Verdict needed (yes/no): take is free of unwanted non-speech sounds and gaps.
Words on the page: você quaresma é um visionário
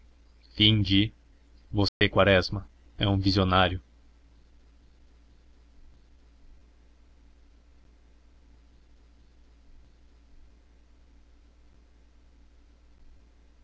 no